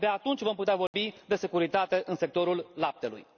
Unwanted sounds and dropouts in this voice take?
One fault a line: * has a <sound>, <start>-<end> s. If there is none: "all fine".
* has a dropout, 0.9-0.9 s